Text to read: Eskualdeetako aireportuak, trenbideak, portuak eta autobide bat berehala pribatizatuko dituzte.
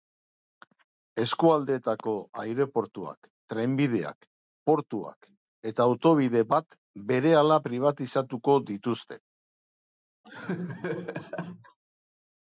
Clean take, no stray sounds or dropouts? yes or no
no